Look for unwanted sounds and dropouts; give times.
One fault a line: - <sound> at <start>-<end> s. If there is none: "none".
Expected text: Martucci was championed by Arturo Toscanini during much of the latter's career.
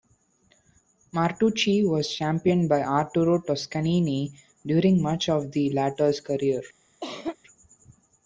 - cough at 7.0-7.4 s